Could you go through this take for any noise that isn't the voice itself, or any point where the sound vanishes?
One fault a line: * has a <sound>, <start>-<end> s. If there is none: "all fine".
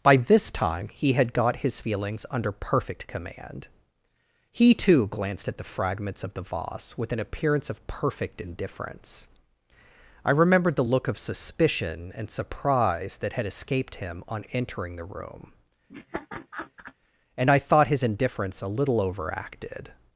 * has a laugh, 15.9-16.9 s